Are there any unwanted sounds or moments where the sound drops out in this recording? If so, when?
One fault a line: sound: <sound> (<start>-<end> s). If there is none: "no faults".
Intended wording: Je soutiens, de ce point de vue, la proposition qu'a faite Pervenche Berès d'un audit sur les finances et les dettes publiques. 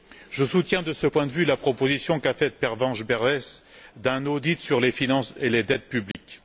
sound: dropout (6.1-6.1 s)